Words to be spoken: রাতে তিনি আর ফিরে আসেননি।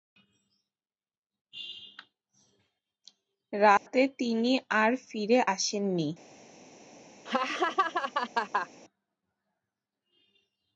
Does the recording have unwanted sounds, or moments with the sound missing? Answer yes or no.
yes